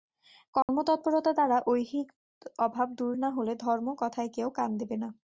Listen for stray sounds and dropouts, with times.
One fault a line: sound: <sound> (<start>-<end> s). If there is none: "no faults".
sound: dropout (0.6-0.7 s)